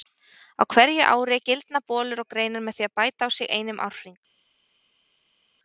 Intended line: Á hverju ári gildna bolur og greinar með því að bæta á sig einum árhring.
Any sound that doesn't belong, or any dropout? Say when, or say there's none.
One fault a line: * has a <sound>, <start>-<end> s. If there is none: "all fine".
all fine